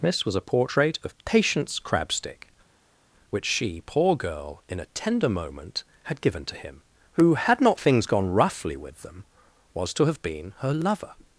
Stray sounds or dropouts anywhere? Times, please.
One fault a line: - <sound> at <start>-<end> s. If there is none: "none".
none